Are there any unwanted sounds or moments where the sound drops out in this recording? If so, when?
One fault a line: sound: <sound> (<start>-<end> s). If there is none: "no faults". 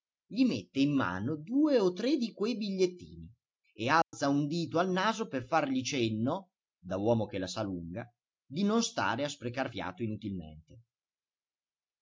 sound: dropout (4.0-4.1 s)